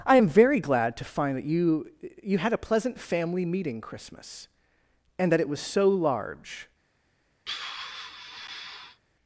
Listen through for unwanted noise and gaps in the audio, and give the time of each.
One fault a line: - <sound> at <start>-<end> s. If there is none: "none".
- sigh at 7.5-9.0 s